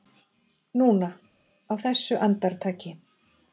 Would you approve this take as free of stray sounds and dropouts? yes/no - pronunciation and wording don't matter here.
yes